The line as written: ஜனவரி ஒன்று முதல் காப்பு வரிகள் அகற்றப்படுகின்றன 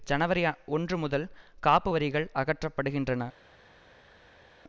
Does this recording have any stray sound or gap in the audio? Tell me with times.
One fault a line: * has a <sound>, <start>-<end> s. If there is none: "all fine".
all fine